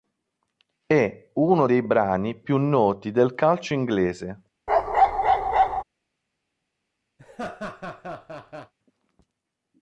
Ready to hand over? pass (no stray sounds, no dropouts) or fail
fail